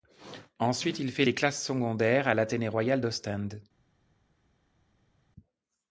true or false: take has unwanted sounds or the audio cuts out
false